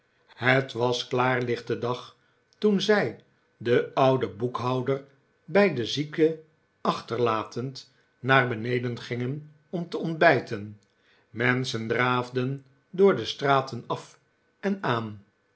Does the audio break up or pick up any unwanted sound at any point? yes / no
no